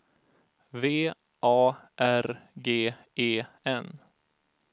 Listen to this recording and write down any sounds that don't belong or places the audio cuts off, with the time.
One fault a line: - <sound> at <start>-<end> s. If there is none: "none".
none